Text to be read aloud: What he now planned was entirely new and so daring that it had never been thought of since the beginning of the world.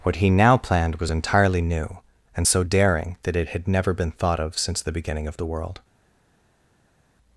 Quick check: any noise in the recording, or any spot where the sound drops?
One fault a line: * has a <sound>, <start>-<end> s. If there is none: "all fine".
all fine